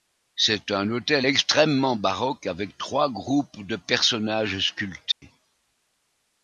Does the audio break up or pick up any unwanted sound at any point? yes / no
yes